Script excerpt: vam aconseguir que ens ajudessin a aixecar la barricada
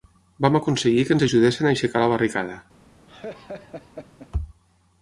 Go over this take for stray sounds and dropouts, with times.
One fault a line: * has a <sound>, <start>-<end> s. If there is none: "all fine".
* has a laugh, 3.1-4.3 s